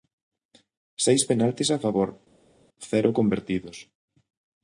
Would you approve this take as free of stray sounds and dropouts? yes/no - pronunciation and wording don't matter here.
yes